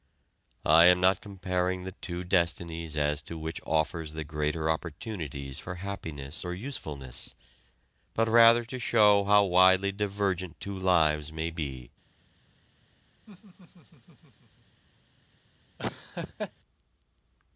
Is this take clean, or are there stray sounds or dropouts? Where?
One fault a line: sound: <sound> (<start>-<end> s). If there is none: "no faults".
sound: laugh (13.3-14.8 s)
sound: laugh (15.8-16.5 s)